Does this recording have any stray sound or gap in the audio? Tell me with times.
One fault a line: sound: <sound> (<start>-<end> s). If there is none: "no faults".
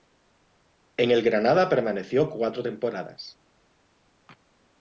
no faults